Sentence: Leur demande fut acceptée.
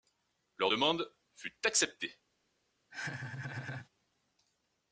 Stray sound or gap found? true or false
true